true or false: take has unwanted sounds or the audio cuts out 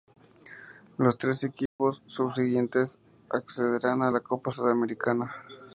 true